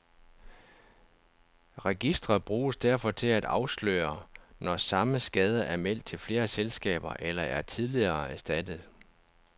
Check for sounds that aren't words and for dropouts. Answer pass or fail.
pass